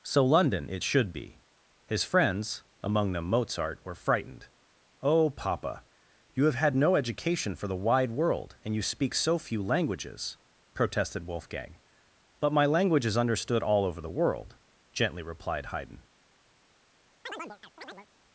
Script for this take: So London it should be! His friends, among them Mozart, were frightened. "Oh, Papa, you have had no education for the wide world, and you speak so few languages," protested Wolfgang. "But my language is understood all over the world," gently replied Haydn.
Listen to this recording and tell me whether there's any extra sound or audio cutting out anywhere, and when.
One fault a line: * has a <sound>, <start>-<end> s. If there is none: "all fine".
* has a chirp, 17.3-18.1 s